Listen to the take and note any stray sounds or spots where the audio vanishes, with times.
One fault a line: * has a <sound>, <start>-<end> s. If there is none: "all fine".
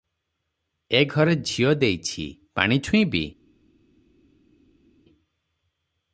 all fine